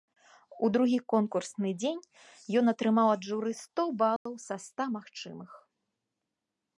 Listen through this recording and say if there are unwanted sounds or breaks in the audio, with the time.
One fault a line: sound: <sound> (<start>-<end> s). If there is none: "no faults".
sound: dropout (4.2-4.3 s)